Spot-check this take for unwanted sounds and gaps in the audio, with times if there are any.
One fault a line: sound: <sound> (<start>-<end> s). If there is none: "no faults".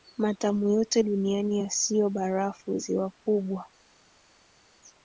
no faults